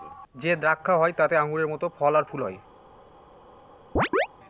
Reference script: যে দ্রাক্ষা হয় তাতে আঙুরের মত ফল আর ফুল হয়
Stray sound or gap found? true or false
true